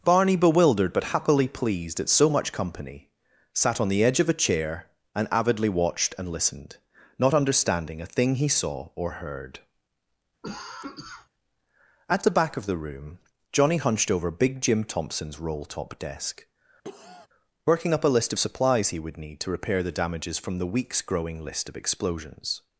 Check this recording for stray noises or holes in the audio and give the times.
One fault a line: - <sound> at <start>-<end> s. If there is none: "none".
- cough at 10.4-11.3 s
- cough at 16.8-17.3 s